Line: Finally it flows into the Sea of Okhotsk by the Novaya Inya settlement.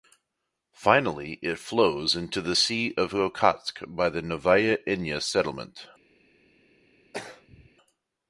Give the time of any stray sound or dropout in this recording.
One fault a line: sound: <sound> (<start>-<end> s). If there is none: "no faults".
sound: throat clearing (7.1-7.7 s)